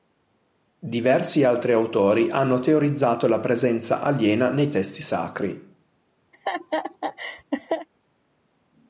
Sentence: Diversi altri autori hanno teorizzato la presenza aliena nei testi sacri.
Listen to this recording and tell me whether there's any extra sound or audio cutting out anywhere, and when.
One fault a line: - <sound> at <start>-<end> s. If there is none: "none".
- laugh at 6.3-7.9 s